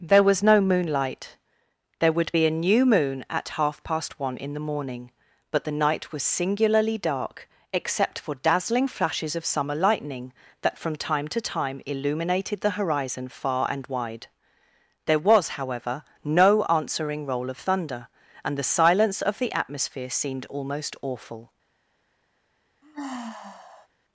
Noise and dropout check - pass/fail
fail